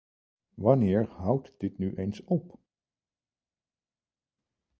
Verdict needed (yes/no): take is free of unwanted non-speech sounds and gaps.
yes